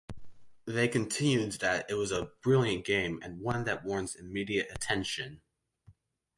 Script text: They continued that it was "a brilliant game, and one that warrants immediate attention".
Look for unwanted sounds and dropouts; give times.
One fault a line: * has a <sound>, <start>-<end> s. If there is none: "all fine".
all fine